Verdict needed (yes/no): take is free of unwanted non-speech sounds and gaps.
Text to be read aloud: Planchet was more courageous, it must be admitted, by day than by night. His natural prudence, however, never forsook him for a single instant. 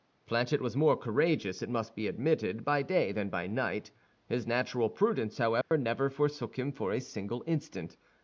no